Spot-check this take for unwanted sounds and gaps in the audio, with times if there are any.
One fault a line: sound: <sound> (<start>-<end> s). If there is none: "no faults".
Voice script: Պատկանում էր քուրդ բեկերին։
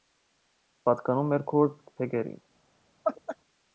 sound: laugh (3.0-3.4 s)